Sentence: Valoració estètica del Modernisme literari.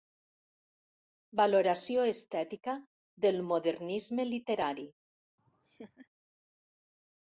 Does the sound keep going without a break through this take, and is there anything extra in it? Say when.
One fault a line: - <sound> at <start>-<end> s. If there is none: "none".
- laugh at 5.4-6.1 s